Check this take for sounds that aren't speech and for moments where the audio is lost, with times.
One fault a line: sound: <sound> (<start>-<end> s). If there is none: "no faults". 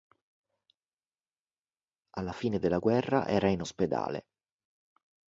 no faults